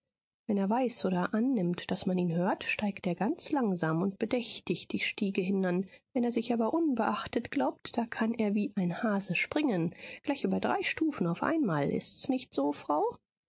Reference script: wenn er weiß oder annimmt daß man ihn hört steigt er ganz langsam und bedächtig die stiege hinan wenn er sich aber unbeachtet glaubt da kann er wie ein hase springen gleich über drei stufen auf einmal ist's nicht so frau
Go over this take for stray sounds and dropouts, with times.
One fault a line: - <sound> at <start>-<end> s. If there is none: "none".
none